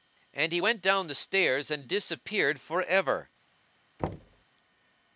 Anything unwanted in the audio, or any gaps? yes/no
yes